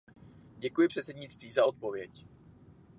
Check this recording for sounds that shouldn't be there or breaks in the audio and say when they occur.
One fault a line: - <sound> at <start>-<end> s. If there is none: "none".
none